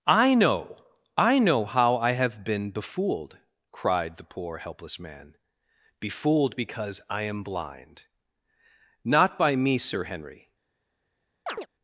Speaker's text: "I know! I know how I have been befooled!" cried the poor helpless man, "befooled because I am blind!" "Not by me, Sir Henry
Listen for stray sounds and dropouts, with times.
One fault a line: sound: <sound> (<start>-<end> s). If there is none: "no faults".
sound: chirp (11.5-11.7 s)